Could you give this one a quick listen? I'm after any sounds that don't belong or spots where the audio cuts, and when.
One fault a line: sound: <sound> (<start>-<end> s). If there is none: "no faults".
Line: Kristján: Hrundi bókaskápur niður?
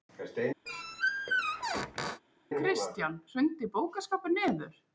sound: squeak (0.7-2.2 s)